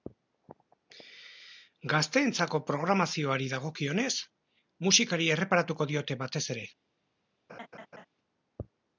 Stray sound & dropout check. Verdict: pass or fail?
fail